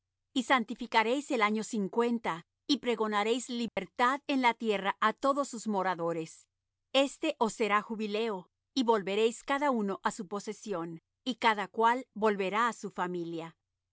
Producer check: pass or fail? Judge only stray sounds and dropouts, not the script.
fail